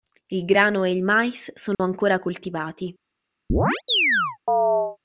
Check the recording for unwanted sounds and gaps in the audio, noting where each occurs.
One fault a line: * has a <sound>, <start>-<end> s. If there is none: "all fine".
* has a dropout, 1.7-1.8 s
* has a chirp, 3.5-5.0 s